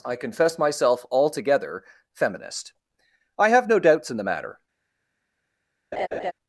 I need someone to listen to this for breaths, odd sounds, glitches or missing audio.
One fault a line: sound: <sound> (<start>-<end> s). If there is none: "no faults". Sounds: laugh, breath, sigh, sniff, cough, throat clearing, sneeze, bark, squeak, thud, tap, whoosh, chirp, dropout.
sound: laugh (5.9-6.3 s)